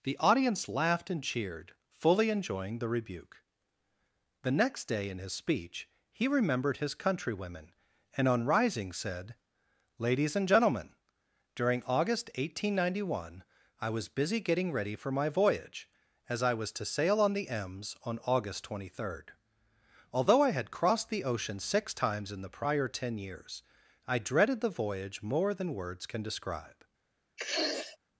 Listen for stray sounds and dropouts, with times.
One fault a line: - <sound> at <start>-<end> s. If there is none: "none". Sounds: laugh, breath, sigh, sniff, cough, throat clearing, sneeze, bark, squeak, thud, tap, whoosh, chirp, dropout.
- sniff at 27.4-28.0 s